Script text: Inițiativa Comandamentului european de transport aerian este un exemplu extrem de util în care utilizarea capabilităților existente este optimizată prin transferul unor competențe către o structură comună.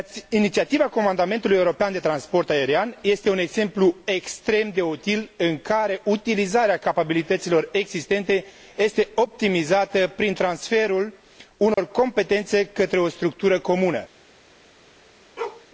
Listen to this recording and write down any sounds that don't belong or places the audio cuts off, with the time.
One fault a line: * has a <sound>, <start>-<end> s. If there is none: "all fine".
* has a dropout, 11.7-11.8 s
* has a bark, 15.4-15.7 s